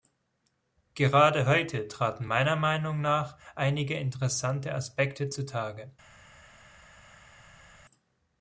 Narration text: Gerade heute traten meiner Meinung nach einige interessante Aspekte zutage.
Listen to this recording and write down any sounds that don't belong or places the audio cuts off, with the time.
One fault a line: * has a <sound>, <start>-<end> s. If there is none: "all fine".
all fine